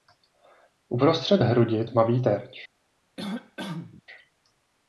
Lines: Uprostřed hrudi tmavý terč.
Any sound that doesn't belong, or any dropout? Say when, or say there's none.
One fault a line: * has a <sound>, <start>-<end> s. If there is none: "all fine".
* has a cough, 3.2-4.0 s